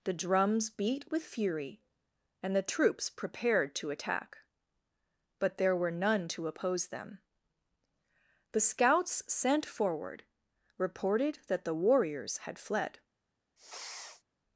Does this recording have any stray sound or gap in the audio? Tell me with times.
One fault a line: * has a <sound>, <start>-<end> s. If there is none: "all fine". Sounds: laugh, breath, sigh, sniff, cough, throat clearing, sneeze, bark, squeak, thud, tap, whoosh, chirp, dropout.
* has a sniff, 13.6-14.2 s